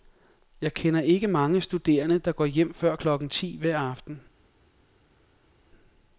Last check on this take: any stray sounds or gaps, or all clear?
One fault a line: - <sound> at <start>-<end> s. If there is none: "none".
none